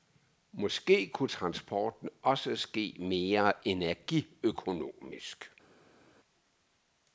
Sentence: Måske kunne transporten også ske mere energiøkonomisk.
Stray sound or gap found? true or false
false